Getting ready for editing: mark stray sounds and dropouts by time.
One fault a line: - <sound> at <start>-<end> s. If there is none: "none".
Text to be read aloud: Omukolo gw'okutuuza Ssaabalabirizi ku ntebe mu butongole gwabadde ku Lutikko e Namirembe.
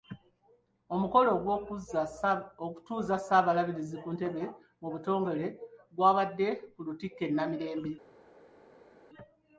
none